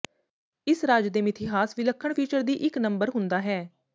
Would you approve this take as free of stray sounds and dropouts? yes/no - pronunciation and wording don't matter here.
yes